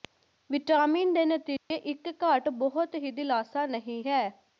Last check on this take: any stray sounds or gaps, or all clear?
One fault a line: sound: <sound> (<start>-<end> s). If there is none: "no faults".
sound: dropout (1.6-1.7 s)